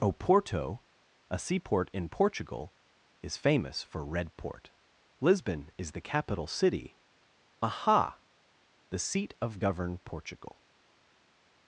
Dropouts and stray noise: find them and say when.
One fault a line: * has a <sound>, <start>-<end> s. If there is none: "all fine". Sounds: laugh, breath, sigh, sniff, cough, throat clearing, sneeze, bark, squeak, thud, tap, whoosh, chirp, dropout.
all fine